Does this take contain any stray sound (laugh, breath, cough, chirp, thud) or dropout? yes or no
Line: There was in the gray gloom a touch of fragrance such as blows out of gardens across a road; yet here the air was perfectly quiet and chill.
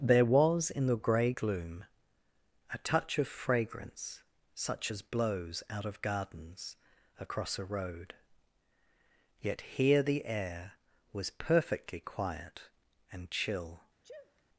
yes